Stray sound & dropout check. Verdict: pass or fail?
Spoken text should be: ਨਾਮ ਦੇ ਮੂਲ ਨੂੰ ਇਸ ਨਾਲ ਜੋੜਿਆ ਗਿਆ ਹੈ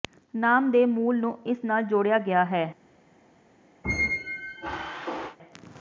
fail